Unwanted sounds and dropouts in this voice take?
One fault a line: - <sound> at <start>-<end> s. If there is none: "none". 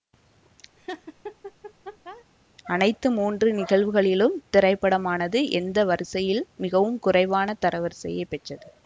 - laugh at 0.8-2.2 s